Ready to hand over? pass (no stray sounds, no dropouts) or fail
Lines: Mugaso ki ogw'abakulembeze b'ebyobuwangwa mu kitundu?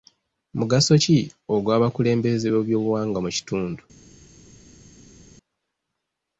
pass